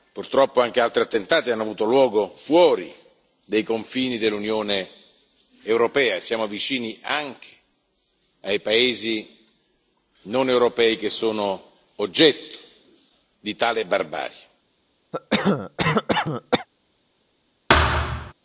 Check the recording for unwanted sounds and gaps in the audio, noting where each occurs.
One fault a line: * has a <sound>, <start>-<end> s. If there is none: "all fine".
* has a cough, 15.1-16.7 s
* has a thud, 17.7-18.3 s